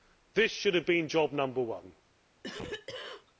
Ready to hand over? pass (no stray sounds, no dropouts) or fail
fail